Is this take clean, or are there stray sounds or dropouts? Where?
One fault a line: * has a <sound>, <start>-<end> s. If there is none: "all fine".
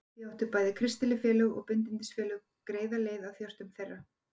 all fine